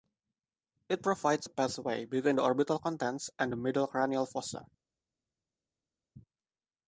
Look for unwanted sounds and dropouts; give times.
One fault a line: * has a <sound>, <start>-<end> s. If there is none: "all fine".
all fine